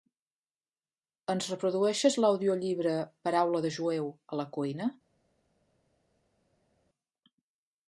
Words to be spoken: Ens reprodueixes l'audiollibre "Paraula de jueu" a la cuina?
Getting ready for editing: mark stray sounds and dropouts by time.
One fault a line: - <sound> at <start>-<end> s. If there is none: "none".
none